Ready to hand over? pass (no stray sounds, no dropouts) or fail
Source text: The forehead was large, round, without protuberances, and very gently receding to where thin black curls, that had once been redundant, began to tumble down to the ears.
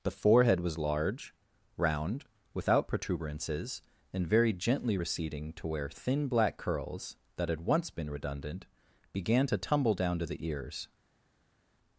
pass